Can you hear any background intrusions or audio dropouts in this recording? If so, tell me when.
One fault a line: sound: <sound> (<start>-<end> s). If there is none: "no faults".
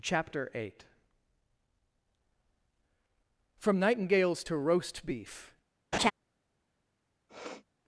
sound: laugh (5.9-6.1 s)
sound: sniff (7.3-7.6 s)